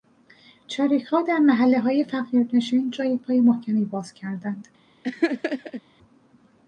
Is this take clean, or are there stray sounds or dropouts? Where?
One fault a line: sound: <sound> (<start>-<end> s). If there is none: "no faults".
sound: laugh (5.0-5.8 s)